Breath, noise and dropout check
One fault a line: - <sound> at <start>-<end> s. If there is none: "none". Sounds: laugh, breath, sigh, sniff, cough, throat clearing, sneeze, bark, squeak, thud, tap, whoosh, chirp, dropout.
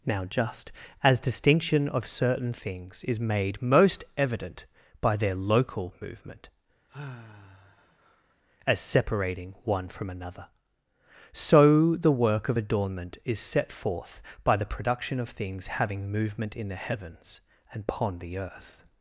- sigh at 6.9-8.3 s